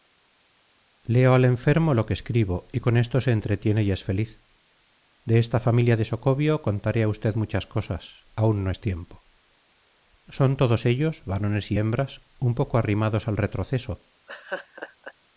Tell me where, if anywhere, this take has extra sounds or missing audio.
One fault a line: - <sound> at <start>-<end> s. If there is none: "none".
- laugh at 14.3-15.1 s